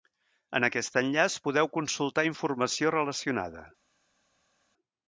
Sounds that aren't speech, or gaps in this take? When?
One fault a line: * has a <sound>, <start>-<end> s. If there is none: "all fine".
all fine